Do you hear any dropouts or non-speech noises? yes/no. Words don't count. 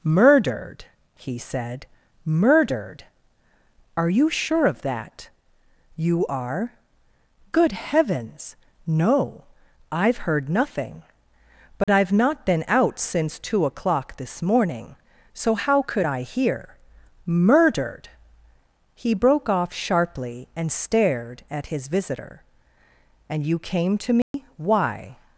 yes